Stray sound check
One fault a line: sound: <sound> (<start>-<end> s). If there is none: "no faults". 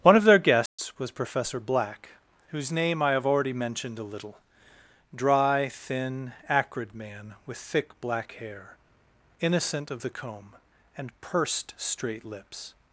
sound: dropout (0.7-0.8 s)